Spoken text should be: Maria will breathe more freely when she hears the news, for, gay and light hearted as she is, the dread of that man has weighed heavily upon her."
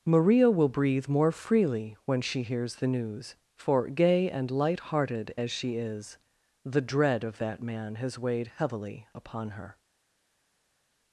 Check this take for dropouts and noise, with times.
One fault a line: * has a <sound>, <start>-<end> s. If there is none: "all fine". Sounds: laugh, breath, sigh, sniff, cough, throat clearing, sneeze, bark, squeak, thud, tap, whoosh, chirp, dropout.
all fine